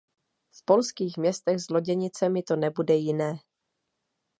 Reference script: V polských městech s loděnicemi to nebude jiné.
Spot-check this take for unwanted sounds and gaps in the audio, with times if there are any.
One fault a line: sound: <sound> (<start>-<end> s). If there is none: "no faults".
no faults